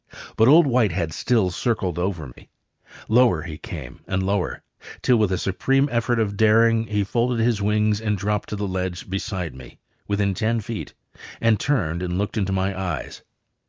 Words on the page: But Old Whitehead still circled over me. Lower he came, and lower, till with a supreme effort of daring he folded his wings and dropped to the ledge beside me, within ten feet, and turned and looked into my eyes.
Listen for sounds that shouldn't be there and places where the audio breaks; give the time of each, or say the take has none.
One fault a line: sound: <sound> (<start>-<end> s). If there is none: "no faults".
sound: dropout (2.3-2.4 s)